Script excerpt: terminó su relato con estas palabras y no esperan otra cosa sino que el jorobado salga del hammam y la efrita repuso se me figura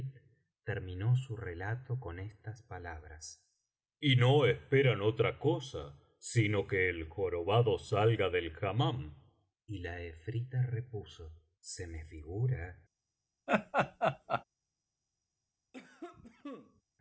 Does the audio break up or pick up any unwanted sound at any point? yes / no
yes